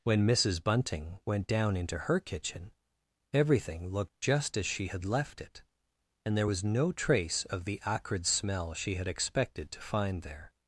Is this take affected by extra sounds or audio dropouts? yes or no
no